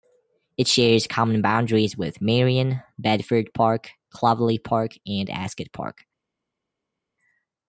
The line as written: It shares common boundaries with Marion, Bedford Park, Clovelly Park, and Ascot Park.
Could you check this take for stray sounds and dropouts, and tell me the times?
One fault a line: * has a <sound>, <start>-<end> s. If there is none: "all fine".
all fine